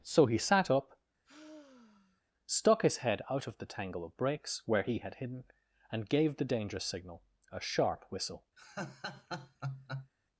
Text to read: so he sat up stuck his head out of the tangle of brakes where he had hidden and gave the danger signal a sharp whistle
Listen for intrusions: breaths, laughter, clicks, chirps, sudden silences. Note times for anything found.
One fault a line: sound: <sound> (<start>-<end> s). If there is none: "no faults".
sound: sigh (1.2-2.2 s)
sound: laugh (8.6-10.1 s)